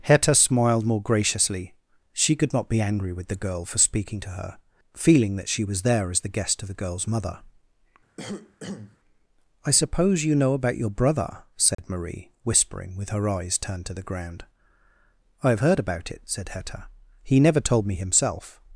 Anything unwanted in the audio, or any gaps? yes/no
yes